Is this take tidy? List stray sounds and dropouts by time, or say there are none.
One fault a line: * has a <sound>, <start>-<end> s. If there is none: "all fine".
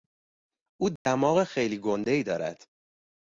* has a dropout, 1.0-1.1 s